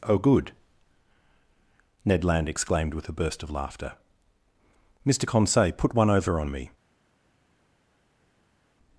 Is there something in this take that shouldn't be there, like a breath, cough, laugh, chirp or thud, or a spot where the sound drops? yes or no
no